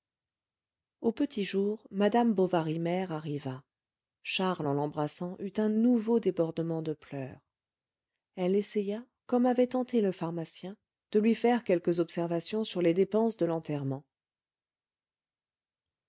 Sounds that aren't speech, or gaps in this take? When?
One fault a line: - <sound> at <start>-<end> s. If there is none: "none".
none